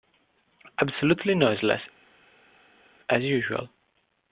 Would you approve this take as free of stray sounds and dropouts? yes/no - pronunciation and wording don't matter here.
yes